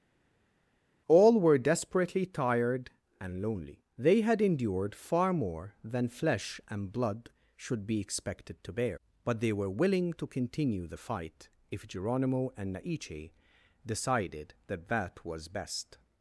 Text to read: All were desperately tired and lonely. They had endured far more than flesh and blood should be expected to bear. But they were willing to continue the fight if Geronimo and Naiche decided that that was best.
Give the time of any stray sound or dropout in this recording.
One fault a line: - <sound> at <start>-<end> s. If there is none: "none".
none